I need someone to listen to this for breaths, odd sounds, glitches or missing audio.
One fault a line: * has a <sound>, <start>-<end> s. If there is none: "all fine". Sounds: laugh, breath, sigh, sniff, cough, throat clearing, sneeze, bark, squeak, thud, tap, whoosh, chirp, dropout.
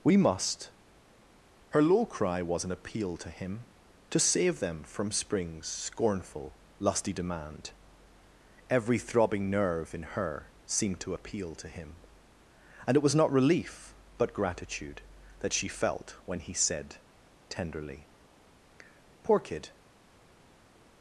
all fine